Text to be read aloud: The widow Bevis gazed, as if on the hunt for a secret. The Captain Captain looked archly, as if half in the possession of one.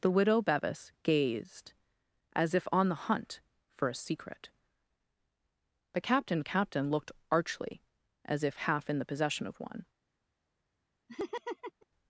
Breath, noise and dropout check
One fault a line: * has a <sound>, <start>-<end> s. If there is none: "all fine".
* has a laugh, 11.1-11.9 s